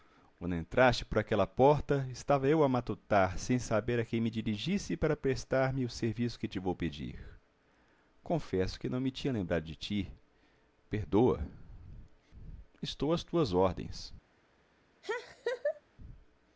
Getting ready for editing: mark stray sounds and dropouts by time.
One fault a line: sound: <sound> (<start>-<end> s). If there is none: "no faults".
sound: laugh (15.0-15.8 s)